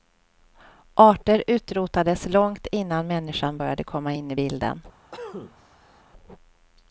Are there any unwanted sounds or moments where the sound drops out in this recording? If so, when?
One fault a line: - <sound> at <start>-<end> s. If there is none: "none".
- cough at 5.1-6.0 s